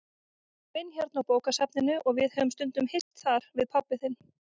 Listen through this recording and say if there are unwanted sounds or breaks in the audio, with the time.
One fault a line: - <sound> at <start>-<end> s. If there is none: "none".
- dropout at 3.0-3.1 s